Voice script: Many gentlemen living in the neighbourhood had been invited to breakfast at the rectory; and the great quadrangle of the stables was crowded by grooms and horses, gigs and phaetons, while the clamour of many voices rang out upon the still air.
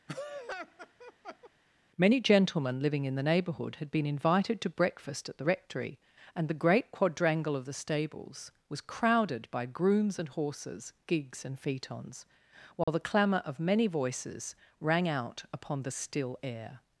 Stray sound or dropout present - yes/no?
yes